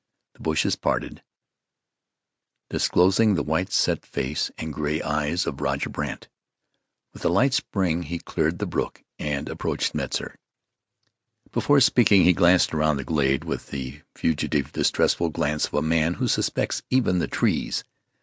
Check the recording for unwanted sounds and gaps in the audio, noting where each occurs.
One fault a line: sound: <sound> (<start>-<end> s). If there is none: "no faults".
no faults